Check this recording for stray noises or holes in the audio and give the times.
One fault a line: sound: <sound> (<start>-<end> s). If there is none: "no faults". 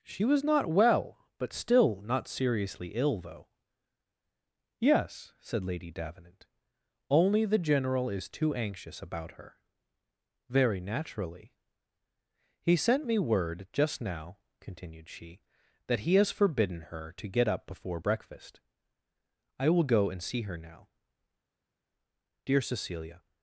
no faults